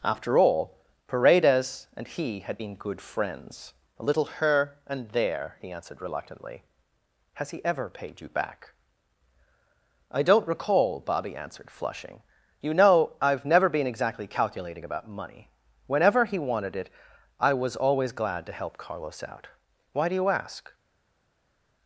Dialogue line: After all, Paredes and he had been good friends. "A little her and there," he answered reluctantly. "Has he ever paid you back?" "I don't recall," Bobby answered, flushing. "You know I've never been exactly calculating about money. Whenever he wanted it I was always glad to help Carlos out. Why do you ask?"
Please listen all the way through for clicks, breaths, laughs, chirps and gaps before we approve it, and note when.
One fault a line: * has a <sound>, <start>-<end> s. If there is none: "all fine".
all fine